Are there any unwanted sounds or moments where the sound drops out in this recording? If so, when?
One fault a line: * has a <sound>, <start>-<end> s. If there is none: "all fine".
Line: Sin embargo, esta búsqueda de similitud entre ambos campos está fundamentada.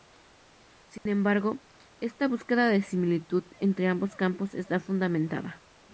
* has a dropout, 1.0-1.1 s